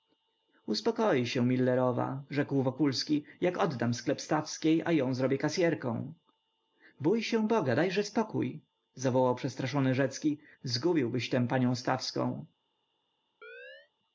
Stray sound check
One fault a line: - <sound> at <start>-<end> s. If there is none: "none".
- chirp at 13.4-13.9 s